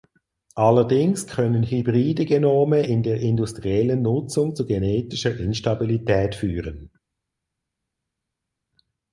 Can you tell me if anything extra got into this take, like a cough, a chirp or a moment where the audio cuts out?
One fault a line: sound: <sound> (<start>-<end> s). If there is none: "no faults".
no faults